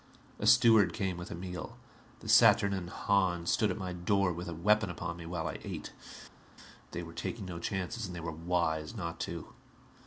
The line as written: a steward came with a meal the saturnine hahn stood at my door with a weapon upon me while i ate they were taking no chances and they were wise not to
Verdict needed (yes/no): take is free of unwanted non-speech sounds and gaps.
yes